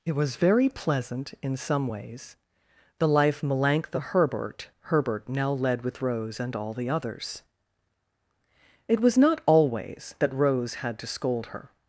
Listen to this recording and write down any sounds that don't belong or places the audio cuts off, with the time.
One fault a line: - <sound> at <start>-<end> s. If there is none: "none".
none